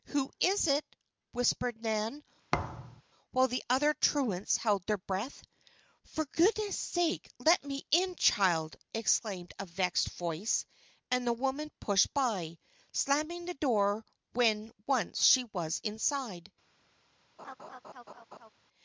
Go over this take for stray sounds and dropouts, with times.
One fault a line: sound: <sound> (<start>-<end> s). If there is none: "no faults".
sound: thud (2.5-3.0 s)
sound: laugh (17.4-18.5 s)